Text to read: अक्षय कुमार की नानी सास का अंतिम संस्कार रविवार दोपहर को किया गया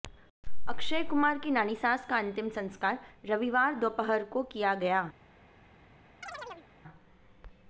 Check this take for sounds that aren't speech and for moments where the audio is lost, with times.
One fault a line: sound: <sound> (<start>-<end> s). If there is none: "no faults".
sound: chirp (6.2-6.7 s)